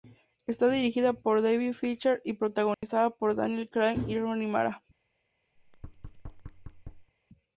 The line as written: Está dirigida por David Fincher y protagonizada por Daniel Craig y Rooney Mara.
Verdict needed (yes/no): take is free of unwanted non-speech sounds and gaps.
no